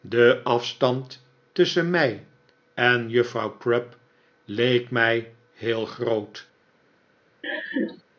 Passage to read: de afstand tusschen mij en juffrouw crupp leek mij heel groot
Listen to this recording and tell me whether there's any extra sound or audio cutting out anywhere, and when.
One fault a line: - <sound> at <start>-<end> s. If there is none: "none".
- laugh at 7.4-8.0 s